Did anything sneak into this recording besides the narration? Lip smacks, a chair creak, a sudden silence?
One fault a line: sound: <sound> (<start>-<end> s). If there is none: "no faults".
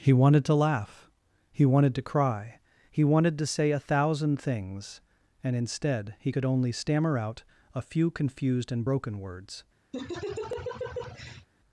sound: laugh (9.9-11.5 s)